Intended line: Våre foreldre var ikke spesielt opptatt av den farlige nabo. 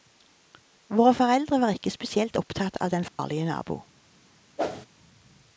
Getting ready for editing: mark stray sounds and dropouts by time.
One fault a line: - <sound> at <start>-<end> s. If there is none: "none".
- dropout at 3.1-3.2 s
- whoosh at 4.6-4.9 s